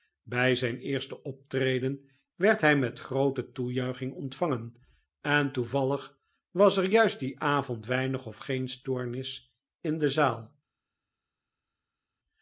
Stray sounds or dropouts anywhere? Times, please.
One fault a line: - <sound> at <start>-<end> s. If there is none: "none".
none